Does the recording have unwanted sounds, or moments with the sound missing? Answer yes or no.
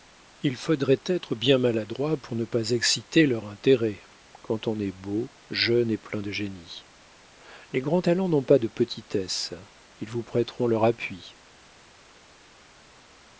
no